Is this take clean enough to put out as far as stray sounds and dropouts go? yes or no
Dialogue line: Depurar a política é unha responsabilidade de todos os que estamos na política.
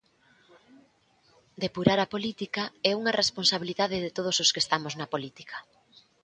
yes